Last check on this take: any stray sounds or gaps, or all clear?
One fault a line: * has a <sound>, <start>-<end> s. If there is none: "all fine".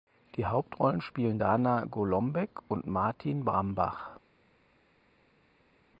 all fine